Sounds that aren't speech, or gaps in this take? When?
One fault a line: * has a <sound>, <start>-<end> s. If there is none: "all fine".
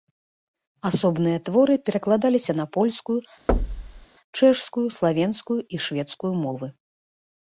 * has a thud, 3.5-4.1 s